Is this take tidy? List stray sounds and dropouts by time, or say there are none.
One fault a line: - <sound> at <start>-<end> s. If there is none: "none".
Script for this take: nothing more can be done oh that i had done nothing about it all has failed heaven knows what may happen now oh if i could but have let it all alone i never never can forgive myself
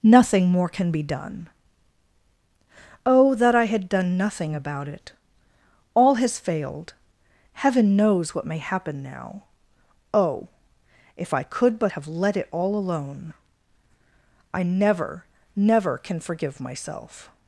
none